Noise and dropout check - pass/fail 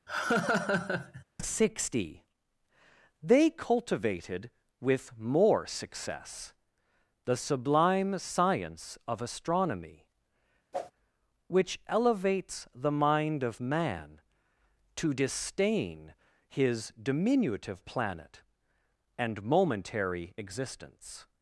fail